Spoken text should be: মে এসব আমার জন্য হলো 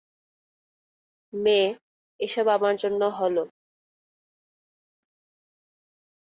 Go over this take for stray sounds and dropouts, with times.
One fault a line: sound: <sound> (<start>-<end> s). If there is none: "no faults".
no faults